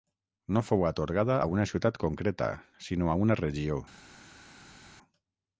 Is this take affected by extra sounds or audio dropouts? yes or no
no